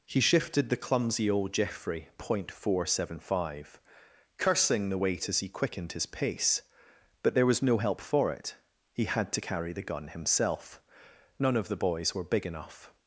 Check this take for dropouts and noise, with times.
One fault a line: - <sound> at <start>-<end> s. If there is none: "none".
none